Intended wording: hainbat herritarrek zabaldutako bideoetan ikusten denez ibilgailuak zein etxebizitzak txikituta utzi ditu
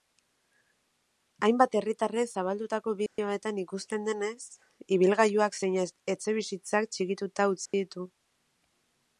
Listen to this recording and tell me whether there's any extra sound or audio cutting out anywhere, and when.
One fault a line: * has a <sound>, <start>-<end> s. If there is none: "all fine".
* has a dropout, 3.1-3.2 s
* has a dropout, 7.7-7.7 s